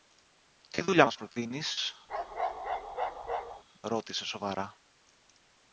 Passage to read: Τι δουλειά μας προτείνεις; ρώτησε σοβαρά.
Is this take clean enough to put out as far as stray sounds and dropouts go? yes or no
no